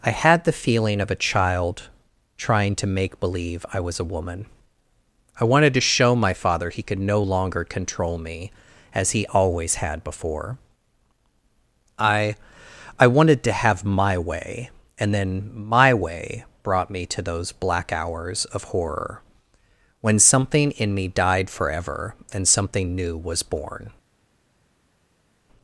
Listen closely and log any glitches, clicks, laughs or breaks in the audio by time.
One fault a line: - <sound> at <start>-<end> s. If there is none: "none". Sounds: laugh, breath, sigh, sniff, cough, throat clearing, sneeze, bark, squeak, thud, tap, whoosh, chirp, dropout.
none